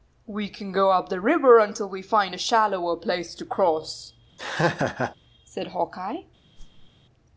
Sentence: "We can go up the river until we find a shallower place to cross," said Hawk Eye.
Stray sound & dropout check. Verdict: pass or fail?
fail